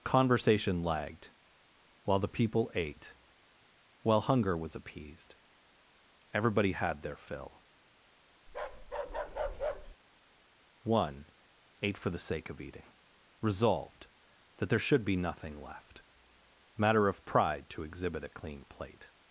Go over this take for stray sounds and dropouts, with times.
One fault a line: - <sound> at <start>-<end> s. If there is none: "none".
- bark at 8.5-10.0 s